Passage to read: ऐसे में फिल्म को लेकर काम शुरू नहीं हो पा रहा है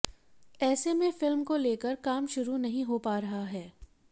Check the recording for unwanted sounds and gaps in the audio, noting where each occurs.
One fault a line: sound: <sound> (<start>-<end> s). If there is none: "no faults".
no faults